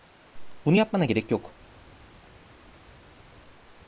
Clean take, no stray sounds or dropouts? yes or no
yes